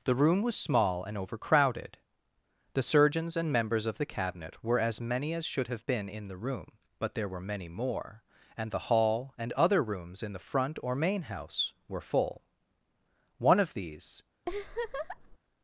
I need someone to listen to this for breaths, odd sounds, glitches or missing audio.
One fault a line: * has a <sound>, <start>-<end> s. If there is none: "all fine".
* has a laugh, 14.5-15.4 s